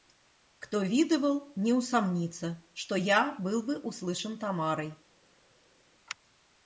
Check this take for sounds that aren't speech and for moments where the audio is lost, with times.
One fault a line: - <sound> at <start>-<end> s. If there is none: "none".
none